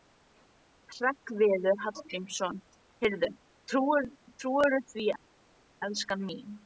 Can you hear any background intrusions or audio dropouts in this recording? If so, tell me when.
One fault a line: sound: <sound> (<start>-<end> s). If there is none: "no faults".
no faults